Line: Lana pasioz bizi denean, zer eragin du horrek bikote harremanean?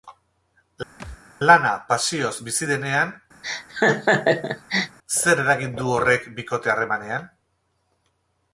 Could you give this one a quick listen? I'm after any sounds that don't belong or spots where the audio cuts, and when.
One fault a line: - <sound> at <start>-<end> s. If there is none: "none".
- thud at 1.0-1.2 s
- laugh at 3.4-5.0 s